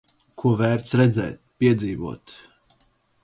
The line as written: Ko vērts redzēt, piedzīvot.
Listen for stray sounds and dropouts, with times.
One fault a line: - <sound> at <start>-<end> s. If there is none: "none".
none